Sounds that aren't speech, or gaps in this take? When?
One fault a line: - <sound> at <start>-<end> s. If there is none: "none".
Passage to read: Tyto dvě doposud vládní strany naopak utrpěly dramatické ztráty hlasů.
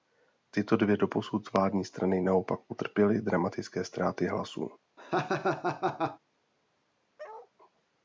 - laugh at 5.0-6.2 s
- bark at 7.2-7.5 s